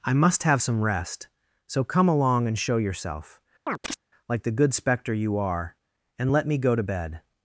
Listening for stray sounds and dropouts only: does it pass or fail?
fail